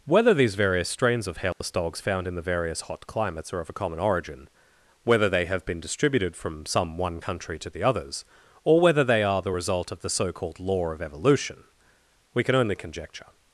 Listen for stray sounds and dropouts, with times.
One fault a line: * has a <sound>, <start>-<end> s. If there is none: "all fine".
* has a dropout, 1.5-1.6 s